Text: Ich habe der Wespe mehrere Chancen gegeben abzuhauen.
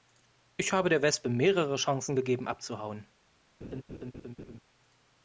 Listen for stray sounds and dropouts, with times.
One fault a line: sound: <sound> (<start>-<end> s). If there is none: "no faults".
sound: laugh (3.6-4.6 s)